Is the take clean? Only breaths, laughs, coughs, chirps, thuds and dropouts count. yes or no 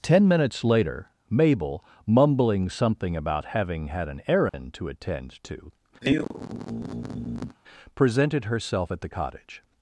no